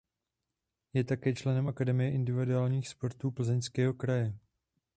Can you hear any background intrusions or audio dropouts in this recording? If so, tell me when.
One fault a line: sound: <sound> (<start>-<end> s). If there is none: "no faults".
no faults